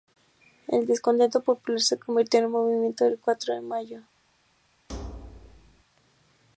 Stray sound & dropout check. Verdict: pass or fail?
fail